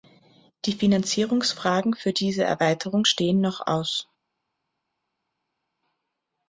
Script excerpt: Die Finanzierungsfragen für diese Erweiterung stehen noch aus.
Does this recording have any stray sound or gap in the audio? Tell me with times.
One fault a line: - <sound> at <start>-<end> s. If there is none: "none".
none